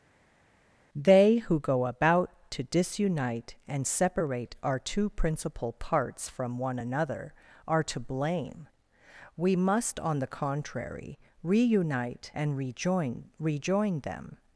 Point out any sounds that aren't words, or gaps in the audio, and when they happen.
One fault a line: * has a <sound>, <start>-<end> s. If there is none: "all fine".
all fine